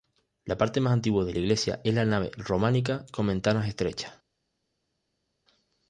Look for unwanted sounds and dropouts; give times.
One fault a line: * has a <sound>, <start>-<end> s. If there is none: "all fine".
all fine